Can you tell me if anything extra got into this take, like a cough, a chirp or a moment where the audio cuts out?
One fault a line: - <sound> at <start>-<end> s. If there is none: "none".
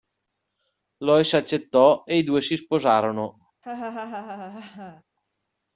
- laugh at 3.6-5.0 s